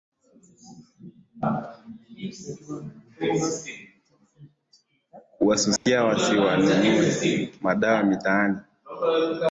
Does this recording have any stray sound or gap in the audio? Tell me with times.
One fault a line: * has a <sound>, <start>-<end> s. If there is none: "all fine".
* has a dropout, 5.8-5.9 s